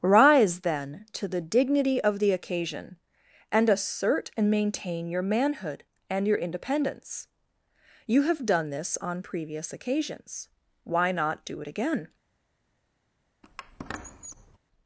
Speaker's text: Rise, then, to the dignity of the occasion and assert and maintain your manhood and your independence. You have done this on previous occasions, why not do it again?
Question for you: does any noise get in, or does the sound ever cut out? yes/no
yes